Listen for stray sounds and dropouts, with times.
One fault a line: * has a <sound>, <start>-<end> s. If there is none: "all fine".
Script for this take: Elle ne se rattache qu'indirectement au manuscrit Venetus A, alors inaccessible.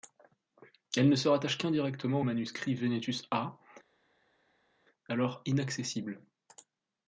all fine